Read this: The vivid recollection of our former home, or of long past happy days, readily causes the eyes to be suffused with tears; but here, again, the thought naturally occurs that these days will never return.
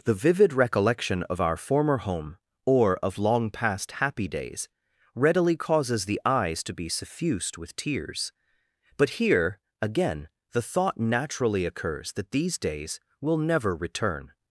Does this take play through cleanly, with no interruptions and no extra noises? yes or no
yes